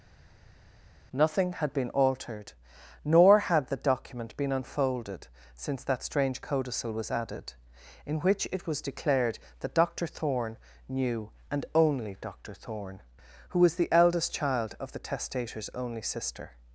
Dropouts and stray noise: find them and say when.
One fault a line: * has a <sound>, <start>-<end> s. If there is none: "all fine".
all fine